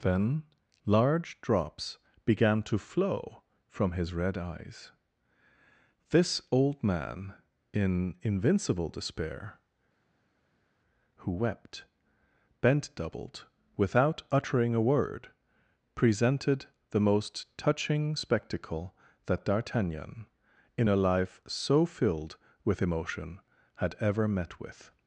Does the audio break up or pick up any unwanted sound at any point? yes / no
no